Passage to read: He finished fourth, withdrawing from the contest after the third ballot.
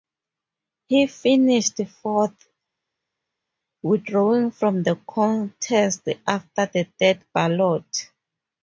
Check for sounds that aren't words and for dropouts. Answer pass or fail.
pass